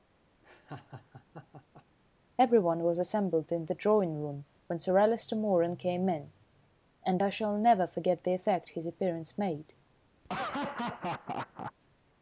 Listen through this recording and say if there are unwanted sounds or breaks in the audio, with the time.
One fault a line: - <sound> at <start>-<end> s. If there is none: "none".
- laugh at 0.4-1.8 s
- laugh at 10.2-11.7 s